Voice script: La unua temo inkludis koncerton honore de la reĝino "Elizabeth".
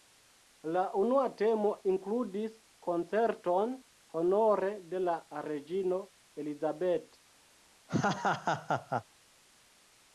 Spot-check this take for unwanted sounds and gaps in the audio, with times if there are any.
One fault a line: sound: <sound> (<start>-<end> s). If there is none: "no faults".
sound: laugh (7.9-9.0 s)